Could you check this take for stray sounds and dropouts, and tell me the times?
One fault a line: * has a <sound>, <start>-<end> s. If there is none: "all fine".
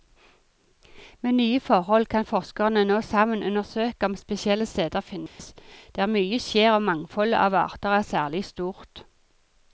* has a dropout, 5.3-5.4 s